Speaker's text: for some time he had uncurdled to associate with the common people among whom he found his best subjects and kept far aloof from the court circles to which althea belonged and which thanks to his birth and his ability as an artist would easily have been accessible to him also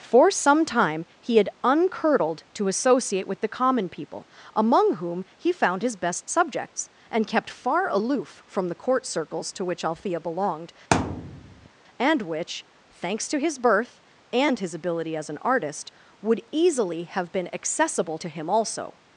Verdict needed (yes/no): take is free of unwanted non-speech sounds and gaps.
no